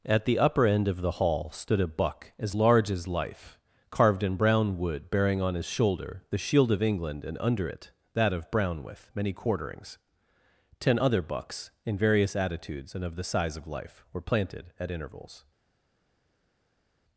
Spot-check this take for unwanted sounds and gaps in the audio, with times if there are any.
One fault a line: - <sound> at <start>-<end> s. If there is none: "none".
none